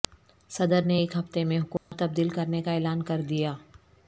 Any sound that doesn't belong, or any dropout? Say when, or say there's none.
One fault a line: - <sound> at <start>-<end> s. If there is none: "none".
- dropout at 1.8-1.9 s